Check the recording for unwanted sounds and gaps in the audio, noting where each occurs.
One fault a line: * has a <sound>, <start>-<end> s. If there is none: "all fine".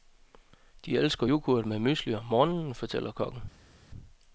all fine